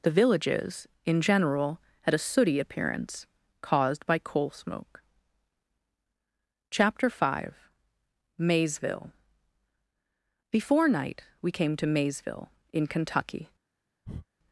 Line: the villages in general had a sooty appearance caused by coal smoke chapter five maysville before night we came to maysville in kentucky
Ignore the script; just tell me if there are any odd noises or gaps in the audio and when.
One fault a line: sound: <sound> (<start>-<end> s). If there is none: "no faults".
sound: breath (14.0-14.3 s)